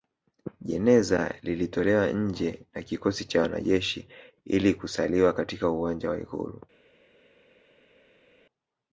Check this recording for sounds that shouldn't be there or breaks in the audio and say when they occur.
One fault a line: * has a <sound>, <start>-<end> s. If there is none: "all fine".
all fine